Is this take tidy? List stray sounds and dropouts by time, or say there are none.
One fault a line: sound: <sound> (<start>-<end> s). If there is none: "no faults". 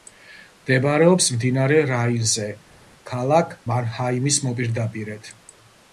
no faults